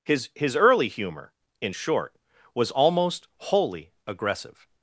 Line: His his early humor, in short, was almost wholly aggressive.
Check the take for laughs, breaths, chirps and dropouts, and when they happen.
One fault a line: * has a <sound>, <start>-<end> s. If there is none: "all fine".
all fine